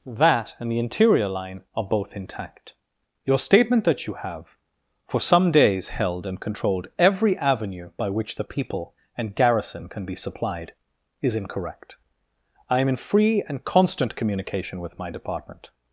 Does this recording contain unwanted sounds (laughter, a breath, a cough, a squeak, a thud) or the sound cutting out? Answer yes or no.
no